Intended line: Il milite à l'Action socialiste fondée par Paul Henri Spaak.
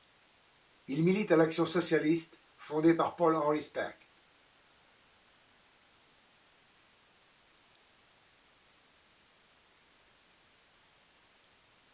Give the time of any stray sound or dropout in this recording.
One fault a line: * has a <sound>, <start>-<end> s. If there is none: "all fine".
all fine